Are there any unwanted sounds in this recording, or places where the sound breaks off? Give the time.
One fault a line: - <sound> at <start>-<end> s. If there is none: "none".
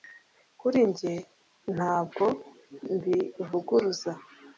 none